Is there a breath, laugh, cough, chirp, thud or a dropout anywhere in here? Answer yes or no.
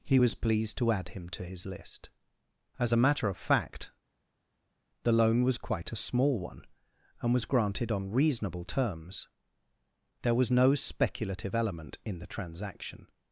no